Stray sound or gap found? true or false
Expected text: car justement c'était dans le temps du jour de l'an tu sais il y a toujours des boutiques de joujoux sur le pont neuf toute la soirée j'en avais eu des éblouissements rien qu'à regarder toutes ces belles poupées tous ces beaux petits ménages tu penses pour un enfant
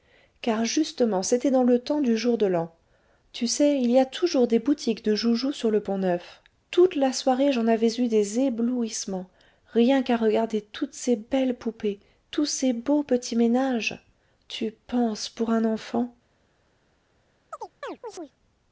true